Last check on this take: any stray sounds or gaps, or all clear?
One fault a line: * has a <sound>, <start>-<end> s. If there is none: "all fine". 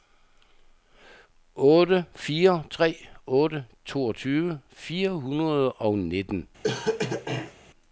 * has a cough, 6.6-7.5 s